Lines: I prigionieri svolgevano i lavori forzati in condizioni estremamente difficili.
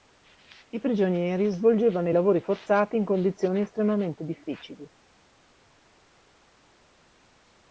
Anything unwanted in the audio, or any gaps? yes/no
no